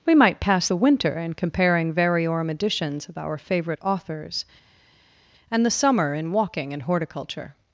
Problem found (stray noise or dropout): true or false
false